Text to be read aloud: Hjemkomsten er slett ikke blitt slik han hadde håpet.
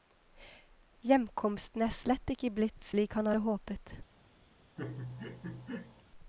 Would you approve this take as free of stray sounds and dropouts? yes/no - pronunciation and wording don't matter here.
no